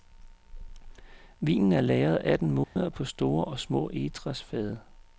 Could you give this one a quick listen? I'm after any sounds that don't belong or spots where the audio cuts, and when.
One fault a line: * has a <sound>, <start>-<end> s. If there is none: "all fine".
* has a dropout, 2.6-2.8 s